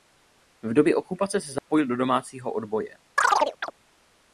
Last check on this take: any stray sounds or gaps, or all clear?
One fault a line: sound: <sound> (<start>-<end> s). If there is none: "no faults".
sound: dropout (1.6-1.7 s)
sound: chirp (3.2-3.7 s)